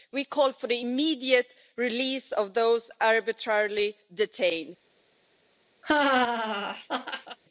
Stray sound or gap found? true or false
true